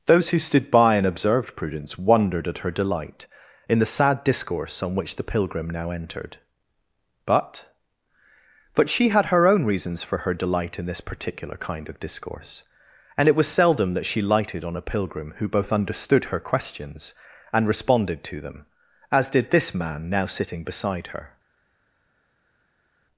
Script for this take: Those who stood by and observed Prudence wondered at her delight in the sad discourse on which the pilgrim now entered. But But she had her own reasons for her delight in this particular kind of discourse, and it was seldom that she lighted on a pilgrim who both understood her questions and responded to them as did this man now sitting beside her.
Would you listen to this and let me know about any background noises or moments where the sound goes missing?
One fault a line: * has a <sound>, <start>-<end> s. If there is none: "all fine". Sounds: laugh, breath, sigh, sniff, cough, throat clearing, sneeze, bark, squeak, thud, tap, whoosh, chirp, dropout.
all fine